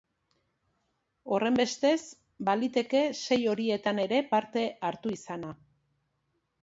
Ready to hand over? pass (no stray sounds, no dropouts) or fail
pass